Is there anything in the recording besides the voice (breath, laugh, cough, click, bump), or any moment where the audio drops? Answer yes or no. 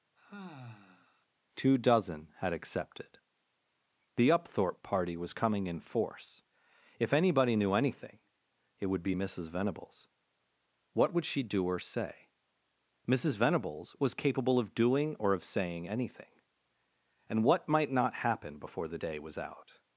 yes